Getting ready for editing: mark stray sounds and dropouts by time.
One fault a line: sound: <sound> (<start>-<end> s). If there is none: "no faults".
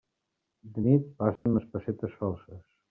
sound: dropout (1.4-1.5 s)